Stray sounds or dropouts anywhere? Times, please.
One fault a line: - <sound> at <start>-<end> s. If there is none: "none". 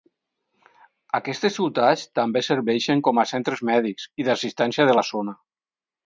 none